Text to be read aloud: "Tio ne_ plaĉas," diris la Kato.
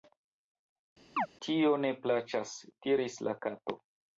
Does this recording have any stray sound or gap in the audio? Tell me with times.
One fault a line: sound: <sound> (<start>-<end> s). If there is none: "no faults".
sound: chirp (1.2-1.3 s)